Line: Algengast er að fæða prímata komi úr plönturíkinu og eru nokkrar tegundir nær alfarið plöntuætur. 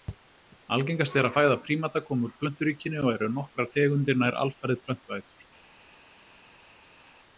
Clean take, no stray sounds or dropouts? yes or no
yes